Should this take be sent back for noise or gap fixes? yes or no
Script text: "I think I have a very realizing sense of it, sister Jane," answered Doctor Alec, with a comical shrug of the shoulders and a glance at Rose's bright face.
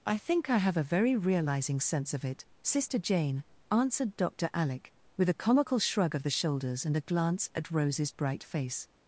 no